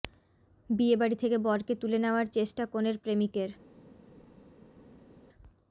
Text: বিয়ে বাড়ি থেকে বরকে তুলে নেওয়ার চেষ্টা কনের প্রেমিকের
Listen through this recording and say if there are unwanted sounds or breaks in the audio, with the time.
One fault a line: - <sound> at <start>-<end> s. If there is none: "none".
none